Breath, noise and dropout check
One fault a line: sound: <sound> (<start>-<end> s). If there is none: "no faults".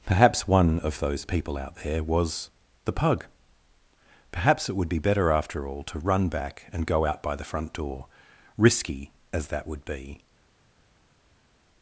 no faults